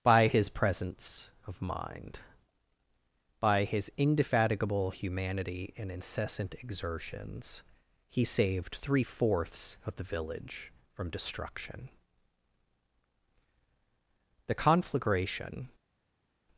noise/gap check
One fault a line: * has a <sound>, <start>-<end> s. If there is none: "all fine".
all fine